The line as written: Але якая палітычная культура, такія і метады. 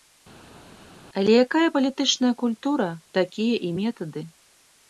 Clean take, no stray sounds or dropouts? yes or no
yes